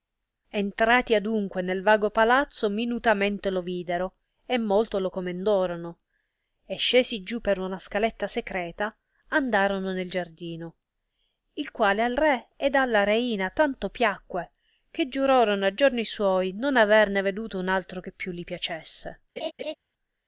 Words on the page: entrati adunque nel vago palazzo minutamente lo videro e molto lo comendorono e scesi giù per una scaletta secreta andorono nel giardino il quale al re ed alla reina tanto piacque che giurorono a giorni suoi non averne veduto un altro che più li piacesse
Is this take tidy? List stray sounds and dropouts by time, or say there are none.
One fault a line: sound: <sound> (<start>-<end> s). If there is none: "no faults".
sound: laugh (19.4-19.7 s)